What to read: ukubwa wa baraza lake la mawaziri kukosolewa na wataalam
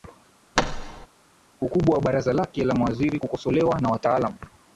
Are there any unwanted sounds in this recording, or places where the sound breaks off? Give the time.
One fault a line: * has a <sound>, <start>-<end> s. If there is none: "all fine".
* has a thud, 0.6-1.1 s